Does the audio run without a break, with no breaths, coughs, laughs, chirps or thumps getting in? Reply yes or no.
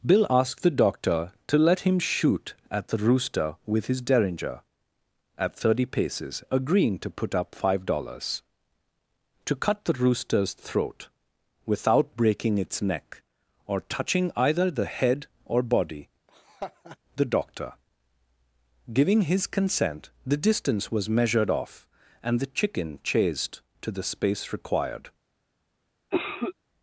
no